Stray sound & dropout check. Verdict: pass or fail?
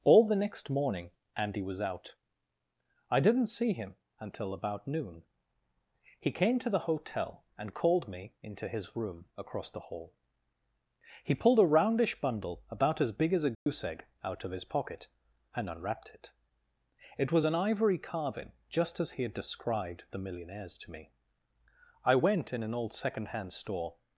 fail